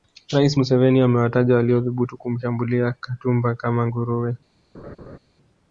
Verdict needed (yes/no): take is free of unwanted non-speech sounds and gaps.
no